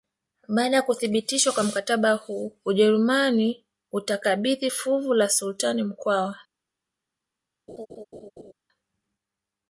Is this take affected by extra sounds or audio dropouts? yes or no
yes